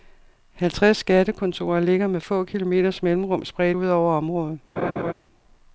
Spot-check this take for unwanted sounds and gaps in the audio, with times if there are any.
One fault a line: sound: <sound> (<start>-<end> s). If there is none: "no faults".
sound: laugh (4.8-5.1 s)